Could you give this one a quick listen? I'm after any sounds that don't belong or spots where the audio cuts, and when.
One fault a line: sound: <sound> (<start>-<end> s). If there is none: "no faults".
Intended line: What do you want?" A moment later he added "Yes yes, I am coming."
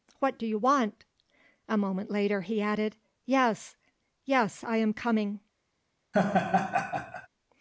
sound: laugh (6.1-7.3 s)